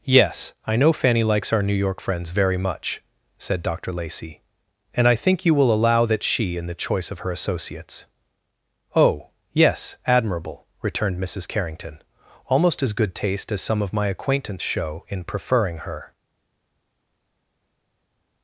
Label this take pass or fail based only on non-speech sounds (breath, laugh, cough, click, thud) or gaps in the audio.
pass